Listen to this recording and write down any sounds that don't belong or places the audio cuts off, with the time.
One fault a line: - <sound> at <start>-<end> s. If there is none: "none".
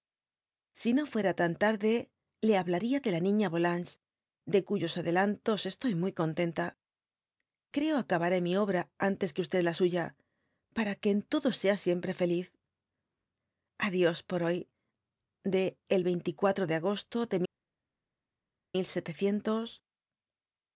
none